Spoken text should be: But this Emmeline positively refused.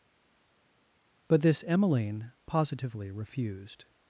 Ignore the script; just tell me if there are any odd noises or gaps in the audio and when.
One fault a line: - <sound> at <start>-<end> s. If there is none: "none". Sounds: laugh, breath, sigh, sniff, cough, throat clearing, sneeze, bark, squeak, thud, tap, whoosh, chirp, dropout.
none